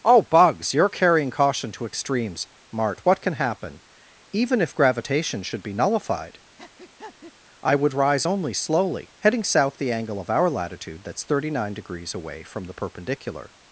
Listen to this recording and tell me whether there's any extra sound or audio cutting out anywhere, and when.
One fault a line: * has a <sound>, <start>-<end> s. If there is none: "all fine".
* has a breath, 6.6-7.3 s